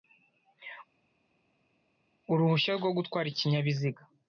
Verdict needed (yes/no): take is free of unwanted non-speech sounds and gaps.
yes